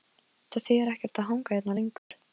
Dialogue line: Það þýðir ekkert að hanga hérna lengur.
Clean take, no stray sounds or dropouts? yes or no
no